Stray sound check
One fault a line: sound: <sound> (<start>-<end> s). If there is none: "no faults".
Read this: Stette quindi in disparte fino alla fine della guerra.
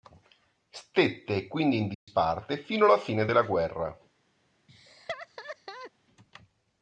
sound: dropout (1.9-2.1 s)
sound: laugh (4.7-5.9 s)